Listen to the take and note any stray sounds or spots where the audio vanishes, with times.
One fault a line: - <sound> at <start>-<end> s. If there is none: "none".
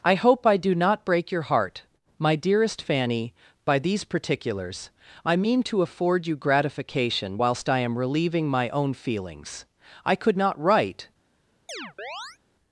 - chirp at 11.7-12.4 s